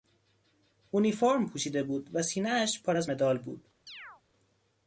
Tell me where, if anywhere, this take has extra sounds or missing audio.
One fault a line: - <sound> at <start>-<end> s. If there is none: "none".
- chirp at 3.9-4.2 s